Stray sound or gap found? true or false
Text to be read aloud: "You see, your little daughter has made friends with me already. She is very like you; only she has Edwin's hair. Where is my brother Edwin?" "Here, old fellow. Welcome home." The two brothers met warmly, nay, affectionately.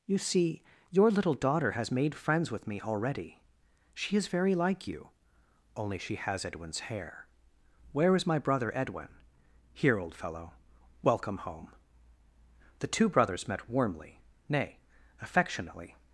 false